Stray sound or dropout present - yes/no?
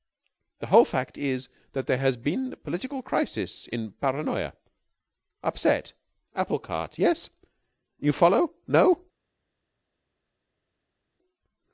no